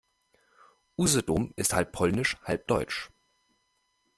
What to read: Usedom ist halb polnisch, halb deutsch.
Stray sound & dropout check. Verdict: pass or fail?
pass